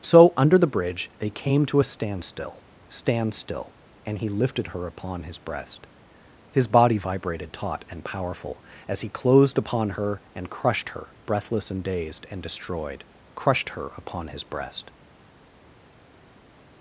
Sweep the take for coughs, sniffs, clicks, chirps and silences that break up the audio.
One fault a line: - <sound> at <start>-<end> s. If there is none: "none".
none